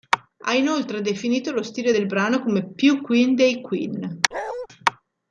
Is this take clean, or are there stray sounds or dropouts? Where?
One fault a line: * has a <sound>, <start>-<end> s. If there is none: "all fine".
* has a bark, 4.3-4.7 s